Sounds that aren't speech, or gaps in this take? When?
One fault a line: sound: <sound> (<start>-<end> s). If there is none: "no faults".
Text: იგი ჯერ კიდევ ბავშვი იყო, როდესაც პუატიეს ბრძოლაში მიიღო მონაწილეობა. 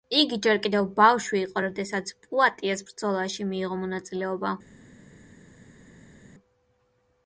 no faults